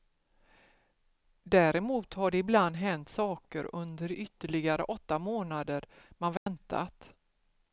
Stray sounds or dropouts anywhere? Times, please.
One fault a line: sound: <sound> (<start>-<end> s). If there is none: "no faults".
sound: dropout (6.4-6.5 s)